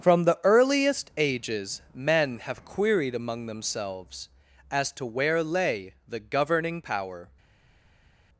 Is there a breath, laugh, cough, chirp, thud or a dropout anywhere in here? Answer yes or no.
no